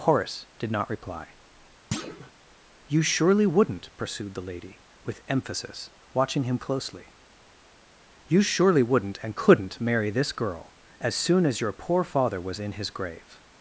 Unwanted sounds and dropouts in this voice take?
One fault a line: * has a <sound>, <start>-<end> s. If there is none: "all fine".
* has a thud, 1.9-2.3 s